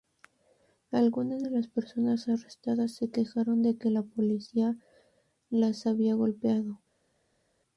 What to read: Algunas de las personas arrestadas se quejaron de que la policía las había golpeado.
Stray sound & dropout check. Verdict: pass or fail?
pass